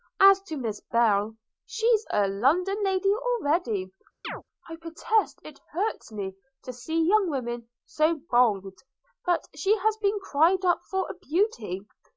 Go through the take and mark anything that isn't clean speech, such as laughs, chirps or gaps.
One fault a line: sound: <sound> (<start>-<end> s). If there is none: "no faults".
sound: chirp (4.2-4.4 s)